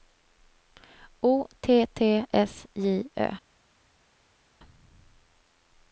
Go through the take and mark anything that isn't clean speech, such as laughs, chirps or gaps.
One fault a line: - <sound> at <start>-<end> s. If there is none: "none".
none